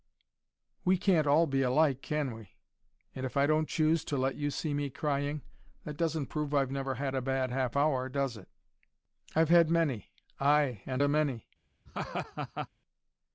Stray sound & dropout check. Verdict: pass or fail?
fail